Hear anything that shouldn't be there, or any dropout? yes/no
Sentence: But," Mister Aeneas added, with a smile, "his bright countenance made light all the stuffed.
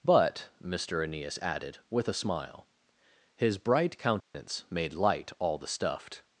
yes